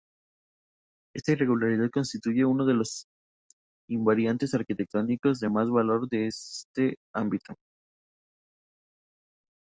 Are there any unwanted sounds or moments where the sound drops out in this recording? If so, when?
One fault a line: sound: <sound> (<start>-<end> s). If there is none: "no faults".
no faults